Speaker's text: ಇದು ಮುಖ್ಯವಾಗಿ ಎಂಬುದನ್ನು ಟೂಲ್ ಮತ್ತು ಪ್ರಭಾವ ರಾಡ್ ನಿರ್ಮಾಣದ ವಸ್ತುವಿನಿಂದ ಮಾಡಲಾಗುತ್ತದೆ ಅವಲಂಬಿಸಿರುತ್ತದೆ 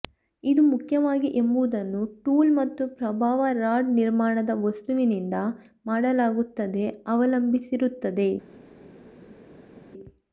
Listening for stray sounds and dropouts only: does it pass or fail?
pass